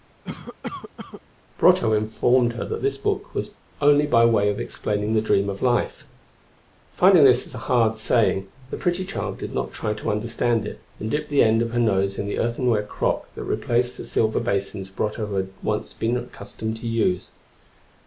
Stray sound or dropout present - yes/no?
yes